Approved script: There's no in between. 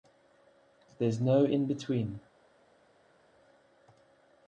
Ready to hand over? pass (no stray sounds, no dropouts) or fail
pass